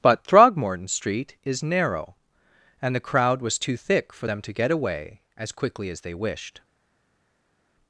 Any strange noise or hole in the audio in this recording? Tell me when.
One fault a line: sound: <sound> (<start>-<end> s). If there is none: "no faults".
no faults